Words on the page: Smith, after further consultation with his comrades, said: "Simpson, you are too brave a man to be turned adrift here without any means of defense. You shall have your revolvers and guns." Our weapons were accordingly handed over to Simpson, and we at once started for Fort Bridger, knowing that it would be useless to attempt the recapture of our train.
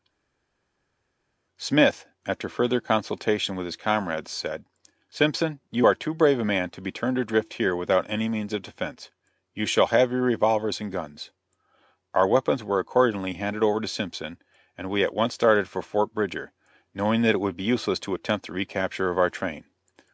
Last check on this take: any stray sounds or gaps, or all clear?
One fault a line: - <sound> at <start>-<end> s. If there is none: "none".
none